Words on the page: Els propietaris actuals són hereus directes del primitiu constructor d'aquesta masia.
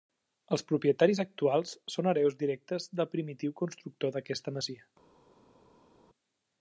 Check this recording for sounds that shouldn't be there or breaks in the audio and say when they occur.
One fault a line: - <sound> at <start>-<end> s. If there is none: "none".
none